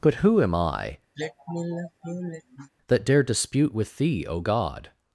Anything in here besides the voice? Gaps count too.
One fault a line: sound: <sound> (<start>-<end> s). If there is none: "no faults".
sound: sigh (1.2-2.7 s)